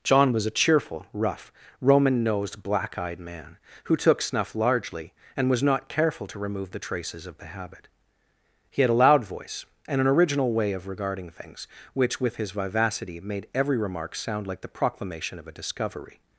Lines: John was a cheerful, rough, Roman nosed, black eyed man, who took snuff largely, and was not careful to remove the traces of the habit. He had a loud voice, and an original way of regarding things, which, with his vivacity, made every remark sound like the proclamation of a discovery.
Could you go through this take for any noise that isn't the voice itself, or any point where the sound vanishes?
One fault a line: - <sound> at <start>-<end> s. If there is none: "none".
none